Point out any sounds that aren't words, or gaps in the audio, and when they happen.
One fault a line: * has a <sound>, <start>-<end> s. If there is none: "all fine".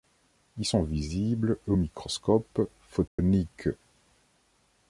* has a dropout, 3.1-3.2 s